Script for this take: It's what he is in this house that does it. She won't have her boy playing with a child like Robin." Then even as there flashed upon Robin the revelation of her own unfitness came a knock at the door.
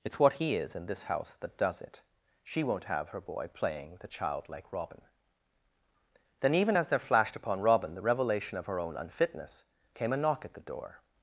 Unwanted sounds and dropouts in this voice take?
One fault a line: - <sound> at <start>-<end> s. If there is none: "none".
none